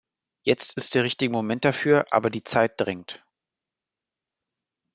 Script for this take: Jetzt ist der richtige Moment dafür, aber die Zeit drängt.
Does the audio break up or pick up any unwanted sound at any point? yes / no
no